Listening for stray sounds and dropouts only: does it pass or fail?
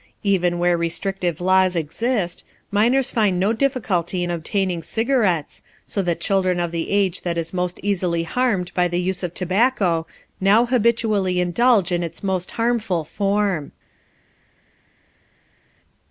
pass